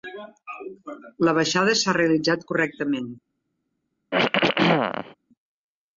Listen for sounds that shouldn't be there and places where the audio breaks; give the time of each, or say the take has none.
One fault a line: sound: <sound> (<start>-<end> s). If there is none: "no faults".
sound: throat clearing (4.1-5.1 s)